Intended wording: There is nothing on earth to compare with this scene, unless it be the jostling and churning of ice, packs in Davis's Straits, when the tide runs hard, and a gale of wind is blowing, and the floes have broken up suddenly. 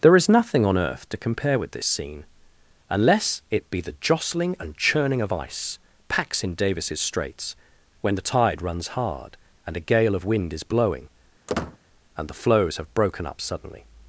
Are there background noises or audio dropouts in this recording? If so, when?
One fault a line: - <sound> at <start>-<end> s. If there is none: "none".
- squeak at 11.5-11.8 s